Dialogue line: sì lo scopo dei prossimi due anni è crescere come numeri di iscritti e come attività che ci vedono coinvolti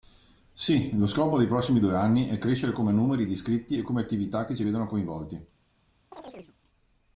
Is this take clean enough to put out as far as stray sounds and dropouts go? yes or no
no